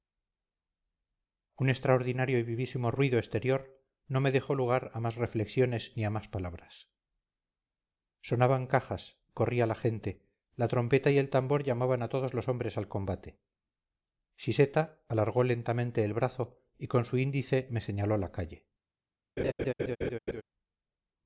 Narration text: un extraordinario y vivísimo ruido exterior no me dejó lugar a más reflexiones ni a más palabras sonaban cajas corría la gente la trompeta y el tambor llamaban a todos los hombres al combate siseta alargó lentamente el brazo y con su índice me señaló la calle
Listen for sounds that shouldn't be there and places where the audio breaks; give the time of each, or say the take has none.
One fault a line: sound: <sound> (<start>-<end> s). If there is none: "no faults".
sound: laugh (19.4-20.4 s)